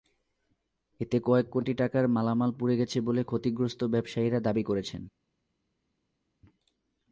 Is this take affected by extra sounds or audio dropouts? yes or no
no